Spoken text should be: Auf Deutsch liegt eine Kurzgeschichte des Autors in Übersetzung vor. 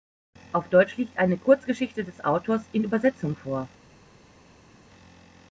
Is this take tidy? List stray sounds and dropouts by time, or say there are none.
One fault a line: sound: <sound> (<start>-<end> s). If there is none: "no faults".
no faults